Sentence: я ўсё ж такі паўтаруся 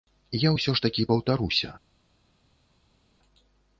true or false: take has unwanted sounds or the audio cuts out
false